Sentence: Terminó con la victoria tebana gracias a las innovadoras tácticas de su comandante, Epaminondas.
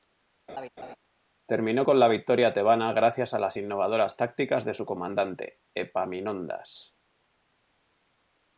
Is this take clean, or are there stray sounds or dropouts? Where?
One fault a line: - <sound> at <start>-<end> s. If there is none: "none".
- laugh at 0.5-1.0 s